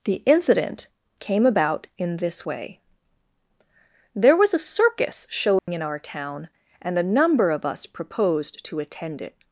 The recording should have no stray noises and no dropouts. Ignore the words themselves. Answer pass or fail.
fail